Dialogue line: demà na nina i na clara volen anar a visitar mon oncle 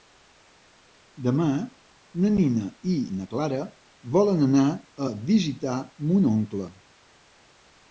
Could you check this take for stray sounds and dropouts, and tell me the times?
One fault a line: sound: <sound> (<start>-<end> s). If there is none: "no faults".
no faults